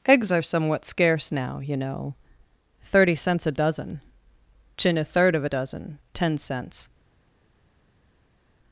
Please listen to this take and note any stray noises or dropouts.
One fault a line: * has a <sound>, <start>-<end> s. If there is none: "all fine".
all fine